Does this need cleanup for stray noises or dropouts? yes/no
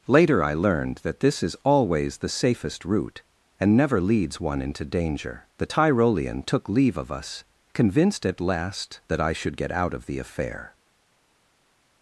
no